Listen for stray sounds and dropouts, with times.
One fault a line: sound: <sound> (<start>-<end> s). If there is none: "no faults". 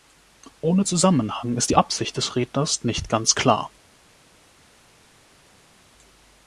no faults